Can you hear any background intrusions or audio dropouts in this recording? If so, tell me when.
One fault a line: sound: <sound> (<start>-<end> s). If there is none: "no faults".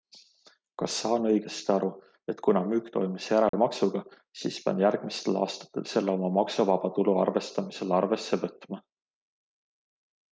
sound: dropout (3.5-3.5 s)